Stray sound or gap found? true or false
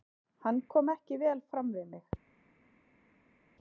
false